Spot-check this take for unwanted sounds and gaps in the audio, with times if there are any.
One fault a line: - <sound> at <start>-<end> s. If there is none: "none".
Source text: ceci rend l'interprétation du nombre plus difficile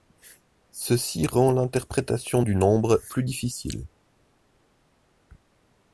none